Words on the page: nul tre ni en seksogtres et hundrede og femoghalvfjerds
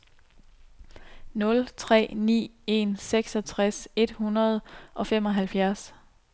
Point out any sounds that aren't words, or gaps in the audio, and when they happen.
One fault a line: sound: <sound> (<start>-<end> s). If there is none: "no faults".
no faults